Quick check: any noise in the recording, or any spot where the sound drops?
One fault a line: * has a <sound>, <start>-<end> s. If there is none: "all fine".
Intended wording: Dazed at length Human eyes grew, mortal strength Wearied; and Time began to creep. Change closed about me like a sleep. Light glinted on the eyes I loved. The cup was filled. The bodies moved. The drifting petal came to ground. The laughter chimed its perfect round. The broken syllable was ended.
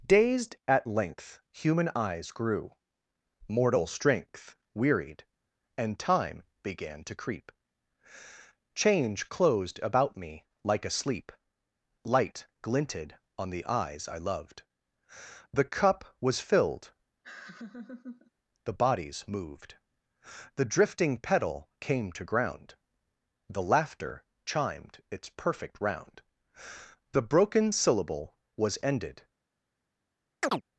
* has a laugh, 17.2-18.3 s
* has a chirp, 30.4-30.6 s